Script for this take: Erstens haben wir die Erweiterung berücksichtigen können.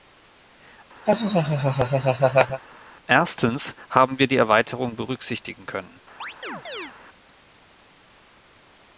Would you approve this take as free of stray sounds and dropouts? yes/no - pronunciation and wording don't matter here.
no